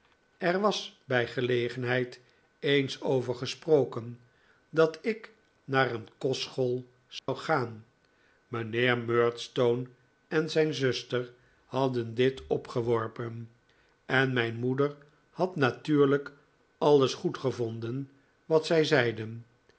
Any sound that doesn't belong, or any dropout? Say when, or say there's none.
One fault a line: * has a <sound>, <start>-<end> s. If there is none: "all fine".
* has a dropout, 7.2-7.3 s